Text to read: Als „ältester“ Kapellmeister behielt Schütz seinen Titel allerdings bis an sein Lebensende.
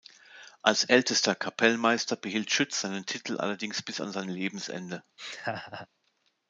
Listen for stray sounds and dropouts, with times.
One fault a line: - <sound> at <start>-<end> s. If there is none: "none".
- laugh at 5.2-5.9 s